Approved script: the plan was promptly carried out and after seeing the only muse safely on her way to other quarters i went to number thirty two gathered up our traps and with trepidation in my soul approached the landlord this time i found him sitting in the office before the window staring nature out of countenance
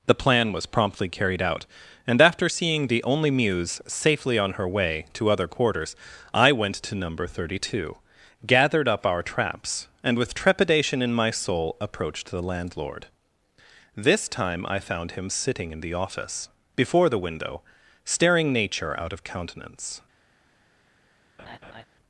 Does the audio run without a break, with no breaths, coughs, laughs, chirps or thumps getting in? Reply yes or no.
no